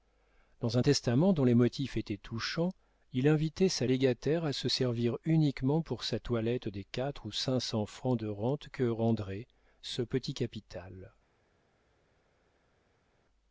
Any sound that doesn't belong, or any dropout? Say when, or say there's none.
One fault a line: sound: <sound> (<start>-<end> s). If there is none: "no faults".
no faults